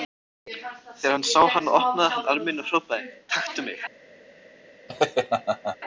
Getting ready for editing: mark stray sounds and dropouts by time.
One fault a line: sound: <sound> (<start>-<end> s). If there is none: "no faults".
sound: laugh (4.9-5.8 s)